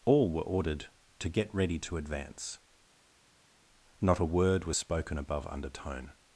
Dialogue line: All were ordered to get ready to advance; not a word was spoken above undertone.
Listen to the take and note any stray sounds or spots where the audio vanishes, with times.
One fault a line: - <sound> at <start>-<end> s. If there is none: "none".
none